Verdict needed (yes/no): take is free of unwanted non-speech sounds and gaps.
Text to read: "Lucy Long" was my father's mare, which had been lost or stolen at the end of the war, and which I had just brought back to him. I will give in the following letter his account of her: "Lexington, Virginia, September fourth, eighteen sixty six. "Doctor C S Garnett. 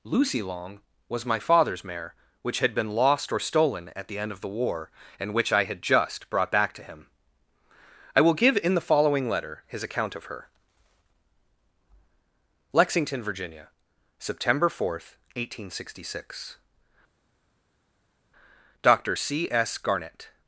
yes